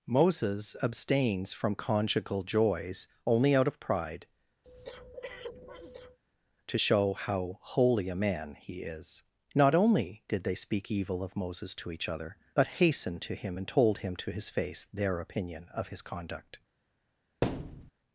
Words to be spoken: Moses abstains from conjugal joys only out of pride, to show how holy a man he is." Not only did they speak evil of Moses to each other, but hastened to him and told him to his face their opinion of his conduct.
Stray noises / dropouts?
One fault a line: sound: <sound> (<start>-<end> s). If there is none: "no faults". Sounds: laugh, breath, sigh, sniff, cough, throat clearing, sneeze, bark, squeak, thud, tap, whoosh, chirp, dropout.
sound: breath (4.6-6.2 s)
sound: thud (17.4-17.9 s)